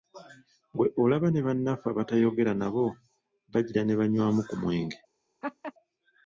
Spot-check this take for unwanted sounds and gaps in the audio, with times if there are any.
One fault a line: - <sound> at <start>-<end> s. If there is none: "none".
- laugh at 5.4-5.7 s